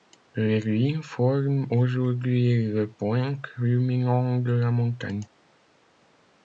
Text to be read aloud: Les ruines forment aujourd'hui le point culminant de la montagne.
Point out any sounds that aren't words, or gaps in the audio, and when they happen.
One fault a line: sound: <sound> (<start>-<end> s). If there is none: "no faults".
no faults